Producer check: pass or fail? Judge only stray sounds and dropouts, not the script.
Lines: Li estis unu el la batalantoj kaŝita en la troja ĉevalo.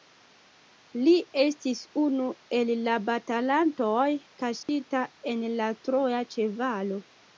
fail